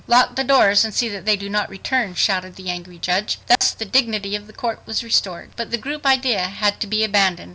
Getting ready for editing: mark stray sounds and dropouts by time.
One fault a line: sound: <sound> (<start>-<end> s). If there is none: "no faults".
sound: dropout (3.6-3.6 s)